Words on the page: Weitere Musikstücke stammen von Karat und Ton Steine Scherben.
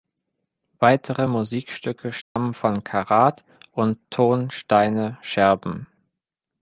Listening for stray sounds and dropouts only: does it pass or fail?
fail